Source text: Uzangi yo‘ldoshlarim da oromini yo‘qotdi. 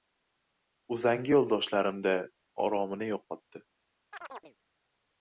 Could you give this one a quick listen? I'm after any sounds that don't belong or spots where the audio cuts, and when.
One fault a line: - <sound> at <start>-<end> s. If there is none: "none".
- chirp at 4.1-4.6 s